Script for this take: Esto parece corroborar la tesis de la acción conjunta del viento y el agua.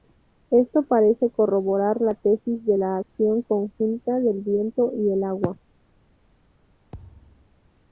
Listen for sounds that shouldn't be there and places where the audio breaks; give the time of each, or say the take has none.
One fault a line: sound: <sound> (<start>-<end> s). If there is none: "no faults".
sound: thud (6.9-7.5 s)